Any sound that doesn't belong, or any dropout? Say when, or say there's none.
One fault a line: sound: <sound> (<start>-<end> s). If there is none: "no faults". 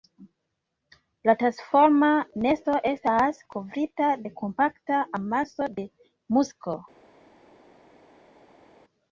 no faults